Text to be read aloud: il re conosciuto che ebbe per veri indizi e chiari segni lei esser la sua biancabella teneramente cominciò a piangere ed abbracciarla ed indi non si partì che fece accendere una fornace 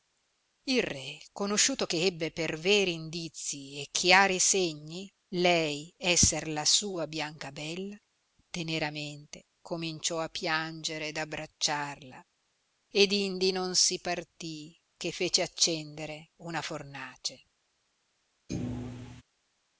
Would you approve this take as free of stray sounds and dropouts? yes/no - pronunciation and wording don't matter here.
no